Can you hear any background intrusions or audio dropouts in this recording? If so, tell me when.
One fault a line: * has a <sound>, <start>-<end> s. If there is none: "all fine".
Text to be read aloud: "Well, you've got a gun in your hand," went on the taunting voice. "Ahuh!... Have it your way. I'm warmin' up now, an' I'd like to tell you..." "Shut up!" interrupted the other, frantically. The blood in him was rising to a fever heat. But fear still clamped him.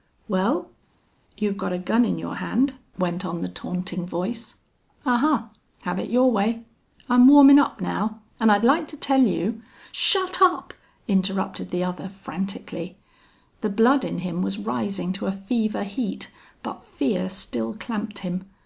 all fine